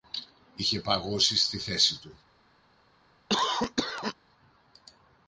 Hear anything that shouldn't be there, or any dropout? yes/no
yes